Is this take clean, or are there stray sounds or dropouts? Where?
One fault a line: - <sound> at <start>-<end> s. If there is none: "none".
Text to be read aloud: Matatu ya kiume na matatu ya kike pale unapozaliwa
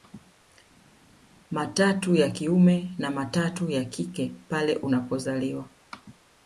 none